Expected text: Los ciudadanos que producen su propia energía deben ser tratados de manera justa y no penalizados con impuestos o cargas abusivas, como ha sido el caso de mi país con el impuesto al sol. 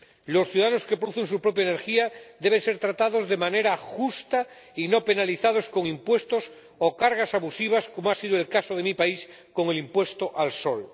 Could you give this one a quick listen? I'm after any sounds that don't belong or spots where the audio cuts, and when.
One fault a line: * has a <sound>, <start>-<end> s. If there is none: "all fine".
all fine